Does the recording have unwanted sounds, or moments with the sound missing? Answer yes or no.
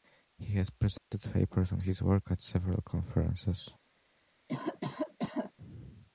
yes